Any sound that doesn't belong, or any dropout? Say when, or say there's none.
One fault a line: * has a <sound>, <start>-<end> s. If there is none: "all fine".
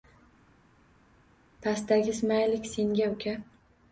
all fine